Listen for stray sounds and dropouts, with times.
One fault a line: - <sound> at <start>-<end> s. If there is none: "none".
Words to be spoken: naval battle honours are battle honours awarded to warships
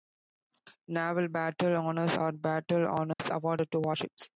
- dropout at 3.1-3.2 s